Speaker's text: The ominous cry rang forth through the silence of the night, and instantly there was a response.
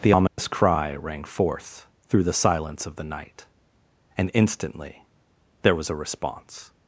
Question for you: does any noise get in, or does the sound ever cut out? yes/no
yes